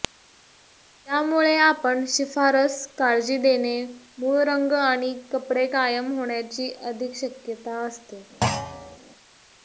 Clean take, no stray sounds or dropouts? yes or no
no